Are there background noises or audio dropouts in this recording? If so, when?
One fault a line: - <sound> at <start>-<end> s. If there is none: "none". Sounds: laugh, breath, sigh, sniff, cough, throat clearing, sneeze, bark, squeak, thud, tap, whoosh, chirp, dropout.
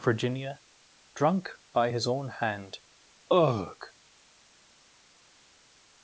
none